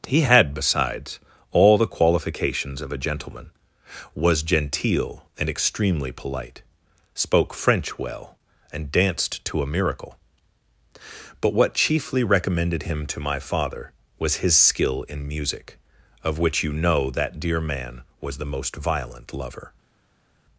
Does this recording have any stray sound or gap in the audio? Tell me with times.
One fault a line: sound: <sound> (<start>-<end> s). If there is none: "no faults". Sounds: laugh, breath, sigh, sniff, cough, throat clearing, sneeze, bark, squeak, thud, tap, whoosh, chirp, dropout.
no faults